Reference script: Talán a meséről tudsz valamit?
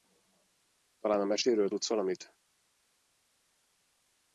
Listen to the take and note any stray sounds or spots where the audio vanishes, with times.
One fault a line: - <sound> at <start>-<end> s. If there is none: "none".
none